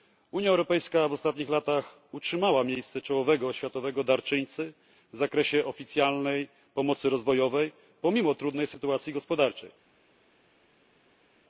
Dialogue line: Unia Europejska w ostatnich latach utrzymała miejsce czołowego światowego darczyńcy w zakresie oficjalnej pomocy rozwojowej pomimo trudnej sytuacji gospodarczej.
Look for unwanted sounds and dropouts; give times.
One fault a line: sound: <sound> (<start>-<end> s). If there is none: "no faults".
no faults